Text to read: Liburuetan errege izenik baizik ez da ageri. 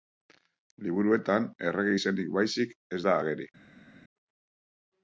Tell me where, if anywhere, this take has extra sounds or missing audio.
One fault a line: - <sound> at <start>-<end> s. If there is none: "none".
none